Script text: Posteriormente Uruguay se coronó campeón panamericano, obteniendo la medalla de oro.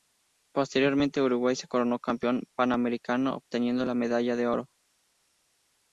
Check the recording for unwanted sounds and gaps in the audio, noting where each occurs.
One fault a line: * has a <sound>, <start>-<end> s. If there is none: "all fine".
all fine